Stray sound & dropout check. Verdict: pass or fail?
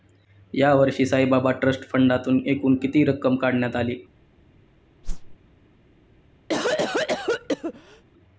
fail